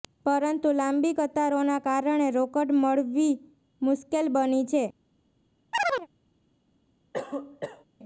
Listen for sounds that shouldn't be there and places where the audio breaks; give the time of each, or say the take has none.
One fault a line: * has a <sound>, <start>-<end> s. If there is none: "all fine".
* has a chirp, 5.7-6.1 s
* has a cough, 7.1-7.8 s